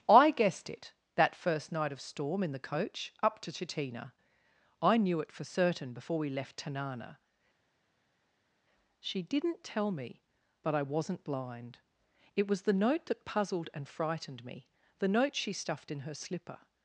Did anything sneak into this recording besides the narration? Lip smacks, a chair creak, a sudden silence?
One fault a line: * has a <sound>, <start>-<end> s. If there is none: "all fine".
all fine